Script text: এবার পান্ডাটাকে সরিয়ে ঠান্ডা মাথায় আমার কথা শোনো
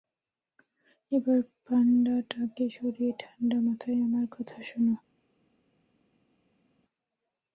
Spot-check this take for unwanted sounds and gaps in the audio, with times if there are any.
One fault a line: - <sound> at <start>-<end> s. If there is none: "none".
none